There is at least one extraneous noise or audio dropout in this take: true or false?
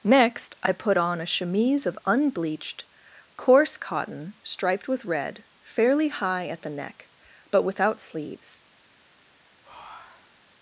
true